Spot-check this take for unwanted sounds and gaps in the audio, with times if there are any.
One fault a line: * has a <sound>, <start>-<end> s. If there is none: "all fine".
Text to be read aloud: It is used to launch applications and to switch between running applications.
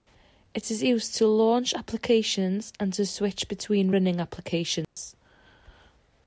* has a dropout, 4.8-5.0 s